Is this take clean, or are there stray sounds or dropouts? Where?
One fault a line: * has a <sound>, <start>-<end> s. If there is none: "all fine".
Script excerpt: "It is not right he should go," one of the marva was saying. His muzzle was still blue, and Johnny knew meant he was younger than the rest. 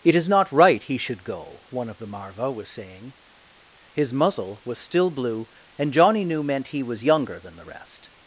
all fine